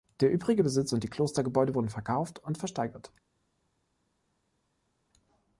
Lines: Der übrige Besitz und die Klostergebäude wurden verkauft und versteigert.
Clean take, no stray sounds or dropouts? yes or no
yes